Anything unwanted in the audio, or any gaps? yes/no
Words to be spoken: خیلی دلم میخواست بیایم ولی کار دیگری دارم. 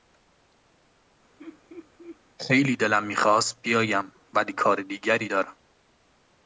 yes